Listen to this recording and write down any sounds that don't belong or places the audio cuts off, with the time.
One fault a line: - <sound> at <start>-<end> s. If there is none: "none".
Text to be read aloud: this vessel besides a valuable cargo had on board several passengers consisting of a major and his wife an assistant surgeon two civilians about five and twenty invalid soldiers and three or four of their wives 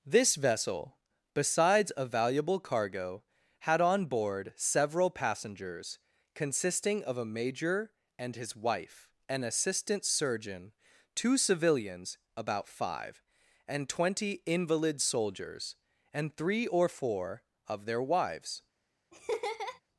- laugh at 19.1-19.8 s